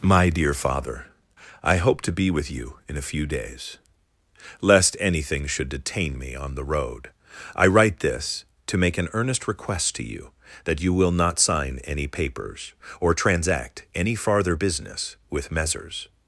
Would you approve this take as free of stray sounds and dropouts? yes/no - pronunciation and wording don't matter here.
yes